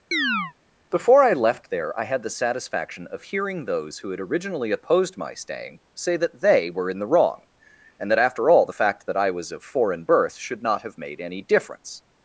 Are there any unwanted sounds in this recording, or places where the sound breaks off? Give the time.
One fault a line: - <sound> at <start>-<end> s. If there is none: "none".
- chirp at 0.1-0.5 s